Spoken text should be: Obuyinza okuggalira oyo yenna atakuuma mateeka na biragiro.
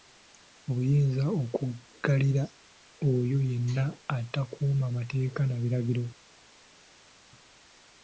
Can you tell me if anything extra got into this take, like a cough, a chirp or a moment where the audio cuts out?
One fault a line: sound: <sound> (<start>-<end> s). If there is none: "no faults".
no faults